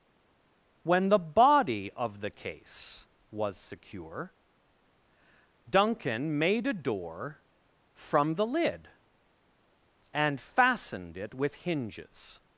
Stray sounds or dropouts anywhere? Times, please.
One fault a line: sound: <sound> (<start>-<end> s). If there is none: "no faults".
no faults